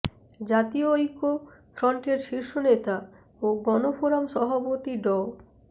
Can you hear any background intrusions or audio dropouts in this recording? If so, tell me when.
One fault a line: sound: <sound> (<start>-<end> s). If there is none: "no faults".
no faults